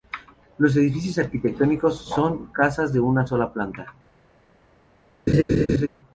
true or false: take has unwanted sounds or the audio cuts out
true